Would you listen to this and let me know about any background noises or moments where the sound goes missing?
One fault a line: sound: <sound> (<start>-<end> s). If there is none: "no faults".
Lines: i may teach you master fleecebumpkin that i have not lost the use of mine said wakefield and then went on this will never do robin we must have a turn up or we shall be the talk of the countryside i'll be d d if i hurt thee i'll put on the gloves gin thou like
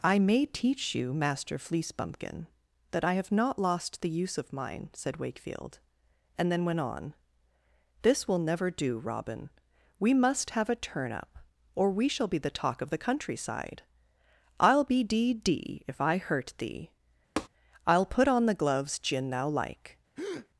sound: tap (17.4-17.5 s)
sound: breath (20.2-20.5 s)